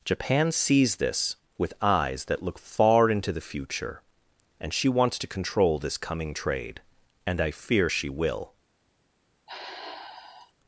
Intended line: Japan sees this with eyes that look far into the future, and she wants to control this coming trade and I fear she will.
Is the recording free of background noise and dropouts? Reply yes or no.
no